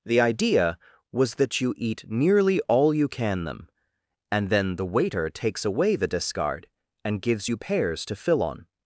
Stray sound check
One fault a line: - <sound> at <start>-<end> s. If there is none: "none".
none